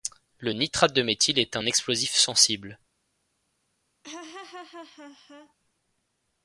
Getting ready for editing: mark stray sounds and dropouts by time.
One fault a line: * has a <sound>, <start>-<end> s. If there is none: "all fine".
* has a laugh, 4.0-5.5 s